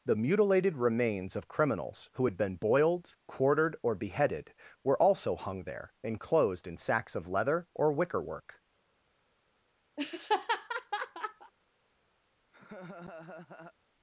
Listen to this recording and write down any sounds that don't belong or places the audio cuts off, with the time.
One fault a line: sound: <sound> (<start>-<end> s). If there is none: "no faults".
sound: laugh (10.0-11.5 s)
sound: laugh (12.5-13.7 s)